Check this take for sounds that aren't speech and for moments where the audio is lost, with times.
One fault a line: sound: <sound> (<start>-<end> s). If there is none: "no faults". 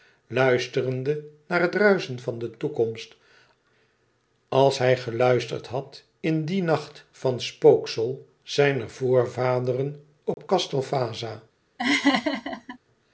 sound: dropout (10.3-10.4 s)
sound: laugh (11.8-12.8 s)